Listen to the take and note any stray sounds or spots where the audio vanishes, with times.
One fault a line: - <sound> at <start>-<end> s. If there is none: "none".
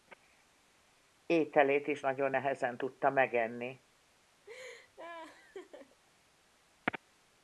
- laugh at 4.4-6.0 s